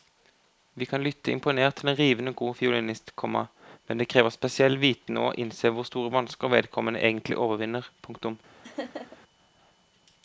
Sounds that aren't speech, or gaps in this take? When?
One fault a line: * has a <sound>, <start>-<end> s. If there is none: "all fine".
* has a laugh, 8.6-9.2 s